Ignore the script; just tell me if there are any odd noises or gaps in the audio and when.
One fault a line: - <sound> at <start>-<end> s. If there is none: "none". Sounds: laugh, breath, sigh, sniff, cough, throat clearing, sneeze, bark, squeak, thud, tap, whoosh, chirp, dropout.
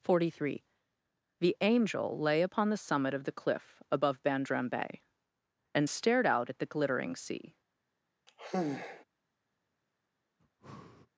- sigh at 8.3-9.0 s
- breath at 10.4-11.1 s